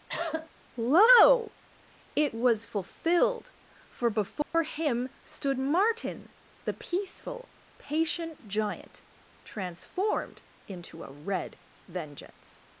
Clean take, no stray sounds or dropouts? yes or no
no